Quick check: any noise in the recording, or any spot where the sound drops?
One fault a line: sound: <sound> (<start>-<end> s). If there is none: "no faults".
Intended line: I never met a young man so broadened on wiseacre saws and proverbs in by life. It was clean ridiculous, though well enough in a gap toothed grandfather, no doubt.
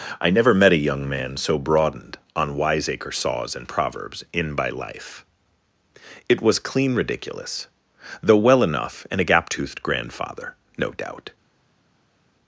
no faults